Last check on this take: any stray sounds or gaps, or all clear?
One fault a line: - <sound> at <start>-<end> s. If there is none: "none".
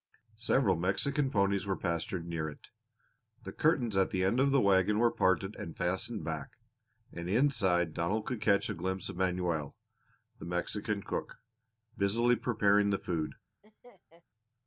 - laugh at 13.6-14.2 s